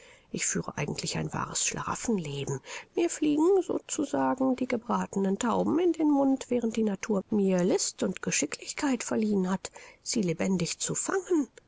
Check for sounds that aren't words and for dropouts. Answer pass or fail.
pass